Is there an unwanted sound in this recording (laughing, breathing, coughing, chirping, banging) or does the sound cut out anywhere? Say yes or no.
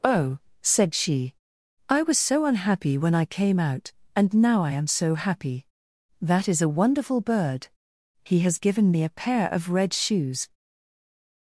no